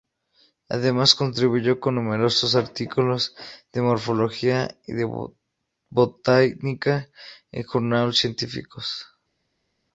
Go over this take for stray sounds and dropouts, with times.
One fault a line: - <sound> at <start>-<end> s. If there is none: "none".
none